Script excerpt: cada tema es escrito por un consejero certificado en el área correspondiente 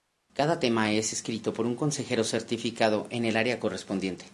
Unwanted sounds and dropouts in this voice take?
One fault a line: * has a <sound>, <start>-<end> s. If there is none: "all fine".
all fine